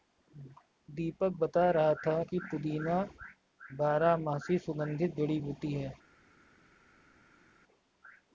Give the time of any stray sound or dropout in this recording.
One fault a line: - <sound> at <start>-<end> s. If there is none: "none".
none